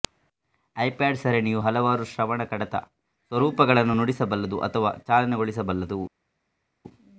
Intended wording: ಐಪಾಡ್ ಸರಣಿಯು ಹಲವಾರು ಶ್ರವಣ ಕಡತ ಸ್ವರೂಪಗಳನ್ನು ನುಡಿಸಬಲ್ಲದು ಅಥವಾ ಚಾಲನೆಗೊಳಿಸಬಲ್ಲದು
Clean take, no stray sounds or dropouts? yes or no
yes